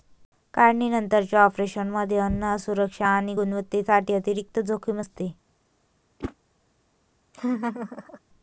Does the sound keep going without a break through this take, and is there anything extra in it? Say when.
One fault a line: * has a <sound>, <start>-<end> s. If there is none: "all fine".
* has a whoosh, 6.2-6.3 s
* has a laugh, 7.3-8.2 s